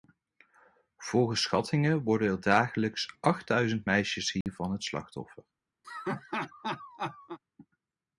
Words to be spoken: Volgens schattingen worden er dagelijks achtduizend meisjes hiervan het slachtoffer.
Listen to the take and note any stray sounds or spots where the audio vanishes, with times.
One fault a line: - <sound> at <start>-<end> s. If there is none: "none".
- dropout at 4.4-4.5 s
- laugh at 5.8-7.4 s